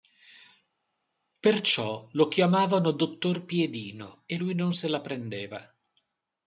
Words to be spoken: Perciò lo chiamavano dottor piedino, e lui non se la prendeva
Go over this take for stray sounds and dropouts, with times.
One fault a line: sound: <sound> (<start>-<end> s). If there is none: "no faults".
no faults